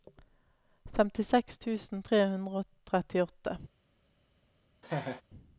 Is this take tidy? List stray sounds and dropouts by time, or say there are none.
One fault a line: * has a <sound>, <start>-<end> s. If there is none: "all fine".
* has a laugh, 4.8-5.2 s